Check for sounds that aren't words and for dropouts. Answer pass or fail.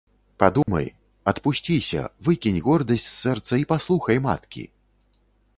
fail